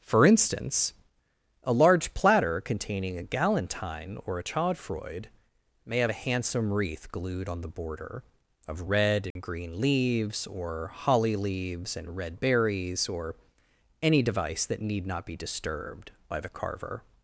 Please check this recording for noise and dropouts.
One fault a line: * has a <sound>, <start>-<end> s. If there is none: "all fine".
* has a dropout, 9.3-9.4 s